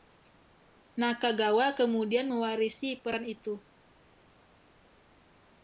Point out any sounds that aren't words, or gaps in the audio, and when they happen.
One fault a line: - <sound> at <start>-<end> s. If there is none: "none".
none